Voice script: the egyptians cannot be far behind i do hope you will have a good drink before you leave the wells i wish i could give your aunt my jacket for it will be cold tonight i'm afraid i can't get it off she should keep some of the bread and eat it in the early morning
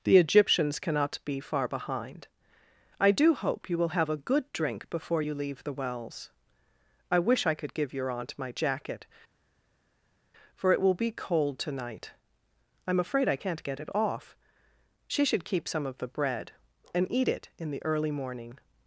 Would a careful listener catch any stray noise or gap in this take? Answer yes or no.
no